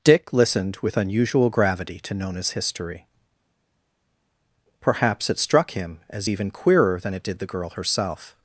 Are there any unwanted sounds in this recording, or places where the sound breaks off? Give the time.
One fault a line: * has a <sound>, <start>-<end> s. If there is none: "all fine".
all fine